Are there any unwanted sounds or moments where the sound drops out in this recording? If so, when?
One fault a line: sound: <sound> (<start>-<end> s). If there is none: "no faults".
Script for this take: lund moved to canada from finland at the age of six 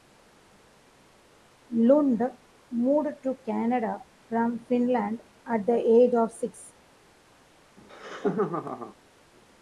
sound: laugh (7.8-9.0 s)